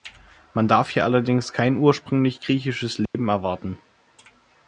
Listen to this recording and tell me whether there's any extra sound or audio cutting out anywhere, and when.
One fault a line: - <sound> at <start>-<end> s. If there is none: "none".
- dropout at 3.1-3.1 s